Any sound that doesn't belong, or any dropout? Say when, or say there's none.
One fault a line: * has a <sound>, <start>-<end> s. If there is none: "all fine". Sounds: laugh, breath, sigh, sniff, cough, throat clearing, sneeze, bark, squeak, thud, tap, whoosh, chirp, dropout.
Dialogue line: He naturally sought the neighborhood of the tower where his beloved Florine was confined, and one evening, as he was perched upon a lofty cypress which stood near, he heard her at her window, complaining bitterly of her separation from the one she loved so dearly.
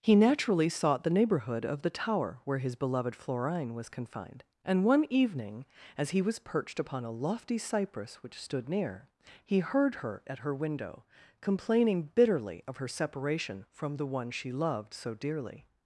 all fine